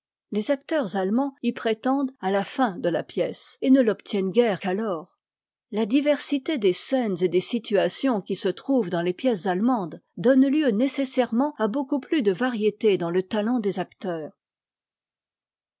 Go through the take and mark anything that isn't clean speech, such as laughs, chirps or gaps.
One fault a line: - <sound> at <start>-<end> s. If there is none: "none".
none